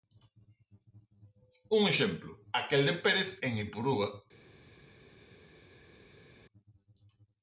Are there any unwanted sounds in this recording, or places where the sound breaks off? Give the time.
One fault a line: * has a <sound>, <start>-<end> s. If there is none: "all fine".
all fine